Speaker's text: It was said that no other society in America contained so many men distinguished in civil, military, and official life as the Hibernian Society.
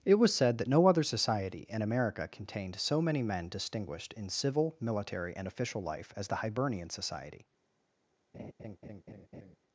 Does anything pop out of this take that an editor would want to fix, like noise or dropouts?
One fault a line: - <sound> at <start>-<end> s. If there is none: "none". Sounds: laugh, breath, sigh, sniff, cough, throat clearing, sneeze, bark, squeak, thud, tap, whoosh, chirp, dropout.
- laugh at 8.3-9.6 s